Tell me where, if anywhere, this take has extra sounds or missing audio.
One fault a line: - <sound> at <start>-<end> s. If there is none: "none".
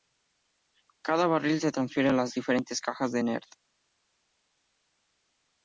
none